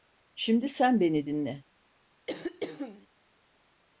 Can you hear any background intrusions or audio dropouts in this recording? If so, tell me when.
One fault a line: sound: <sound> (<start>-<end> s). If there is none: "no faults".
sound: throat clearing (2.3-3.1 s)